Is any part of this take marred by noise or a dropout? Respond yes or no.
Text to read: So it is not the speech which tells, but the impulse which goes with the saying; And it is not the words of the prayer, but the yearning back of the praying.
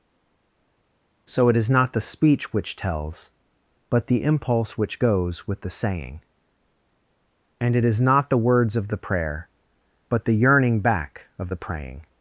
no